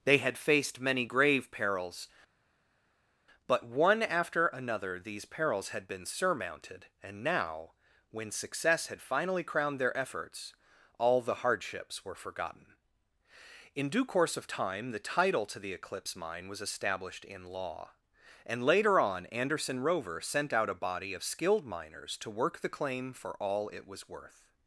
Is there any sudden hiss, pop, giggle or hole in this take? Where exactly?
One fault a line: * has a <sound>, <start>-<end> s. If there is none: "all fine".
all fine